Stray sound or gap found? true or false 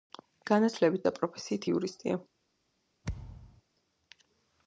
true